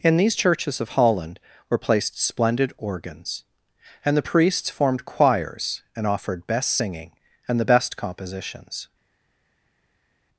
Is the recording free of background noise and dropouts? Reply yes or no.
yes